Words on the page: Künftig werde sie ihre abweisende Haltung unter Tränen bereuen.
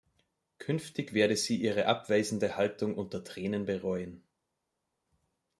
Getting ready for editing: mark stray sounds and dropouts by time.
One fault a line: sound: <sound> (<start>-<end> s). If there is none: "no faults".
no faults